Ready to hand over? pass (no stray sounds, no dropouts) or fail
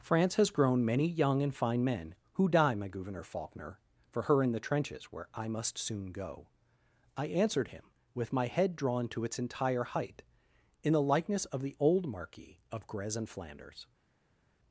pass